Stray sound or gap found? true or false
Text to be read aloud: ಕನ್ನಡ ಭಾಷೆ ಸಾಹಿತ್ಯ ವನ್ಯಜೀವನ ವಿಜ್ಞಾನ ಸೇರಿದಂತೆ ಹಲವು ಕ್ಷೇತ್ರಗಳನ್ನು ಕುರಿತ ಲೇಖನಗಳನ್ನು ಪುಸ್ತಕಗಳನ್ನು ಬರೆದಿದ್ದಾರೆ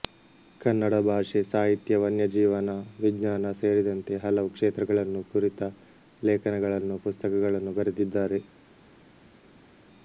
false